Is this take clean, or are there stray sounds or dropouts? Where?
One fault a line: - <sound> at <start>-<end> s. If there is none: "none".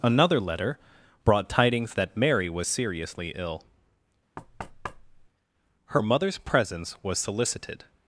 - thud at 4.4-5.3 s